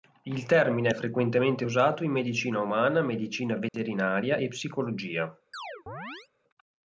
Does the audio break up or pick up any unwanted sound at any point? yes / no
yes